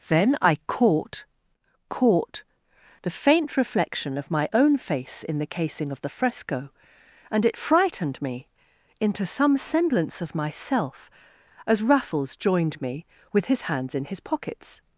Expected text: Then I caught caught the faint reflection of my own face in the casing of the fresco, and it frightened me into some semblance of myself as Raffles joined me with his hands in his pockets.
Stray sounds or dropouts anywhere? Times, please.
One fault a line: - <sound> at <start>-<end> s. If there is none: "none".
none